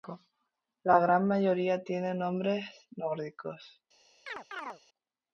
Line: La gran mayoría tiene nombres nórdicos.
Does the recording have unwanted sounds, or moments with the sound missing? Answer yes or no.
yes